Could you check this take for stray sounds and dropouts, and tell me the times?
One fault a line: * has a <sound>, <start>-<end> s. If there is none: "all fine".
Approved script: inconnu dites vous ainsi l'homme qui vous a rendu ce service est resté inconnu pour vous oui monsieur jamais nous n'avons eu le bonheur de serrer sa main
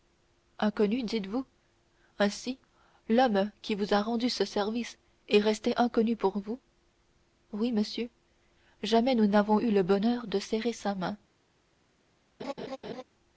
* has a laugh, 12.4-13.0 s